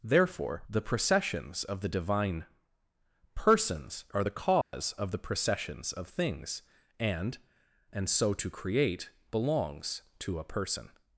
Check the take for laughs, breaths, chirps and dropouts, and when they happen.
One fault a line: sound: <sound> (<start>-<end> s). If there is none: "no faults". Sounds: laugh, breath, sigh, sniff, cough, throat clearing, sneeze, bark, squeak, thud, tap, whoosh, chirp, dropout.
sound: dropout (4.6-4.7 s)